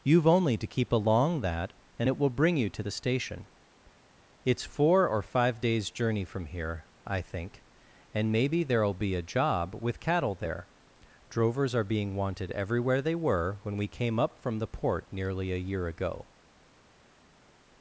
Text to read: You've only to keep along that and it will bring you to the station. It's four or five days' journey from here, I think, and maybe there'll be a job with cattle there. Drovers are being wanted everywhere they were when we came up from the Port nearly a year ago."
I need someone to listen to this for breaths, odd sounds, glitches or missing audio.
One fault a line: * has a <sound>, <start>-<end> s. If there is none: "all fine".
all fine